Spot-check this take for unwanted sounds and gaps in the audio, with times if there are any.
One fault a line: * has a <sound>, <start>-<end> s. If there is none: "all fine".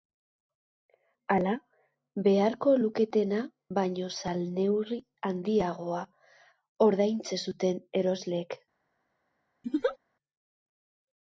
* has a laugh, 9.6-10.0 s